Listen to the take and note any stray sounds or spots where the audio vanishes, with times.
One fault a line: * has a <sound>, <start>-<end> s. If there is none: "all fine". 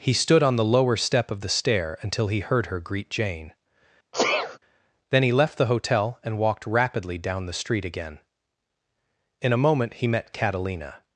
* has a sneeze, 4.1-4.6 s